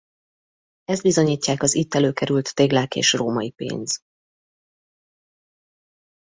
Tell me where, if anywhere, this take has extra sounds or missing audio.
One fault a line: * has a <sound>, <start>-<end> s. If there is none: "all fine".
all fine